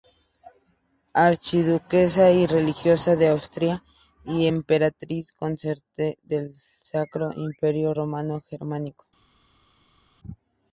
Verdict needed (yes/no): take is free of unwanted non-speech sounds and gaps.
yes